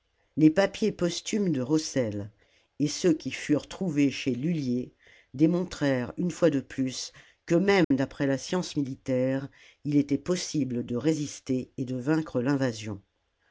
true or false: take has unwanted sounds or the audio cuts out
true